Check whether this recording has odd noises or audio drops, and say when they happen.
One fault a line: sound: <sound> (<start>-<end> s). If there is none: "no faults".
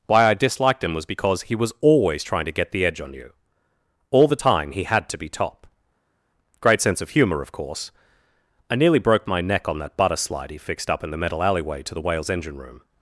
no faults